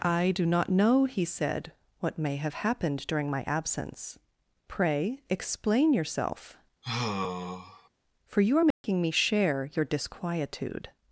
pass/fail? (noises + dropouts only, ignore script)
fail